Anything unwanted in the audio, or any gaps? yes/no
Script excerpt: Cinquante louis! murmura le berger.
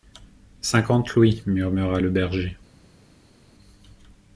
no